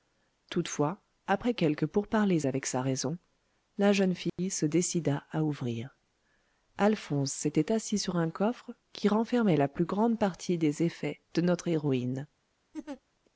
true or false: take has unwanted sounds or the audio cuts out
true